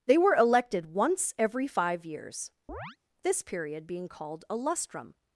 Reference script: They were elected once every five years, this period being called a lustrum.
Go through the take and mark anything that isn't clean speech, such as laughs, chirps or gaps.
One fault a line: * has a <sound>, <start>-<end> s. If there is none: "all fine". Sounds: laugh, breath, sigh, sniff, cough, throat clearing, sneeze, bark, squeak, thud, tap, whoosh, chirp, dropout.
* has a chirp, 2.7-3.0 s